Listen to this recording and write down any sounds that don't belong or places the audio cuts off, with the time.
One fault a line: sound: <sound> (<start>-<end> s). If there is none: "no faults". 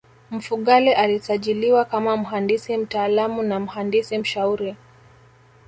no faults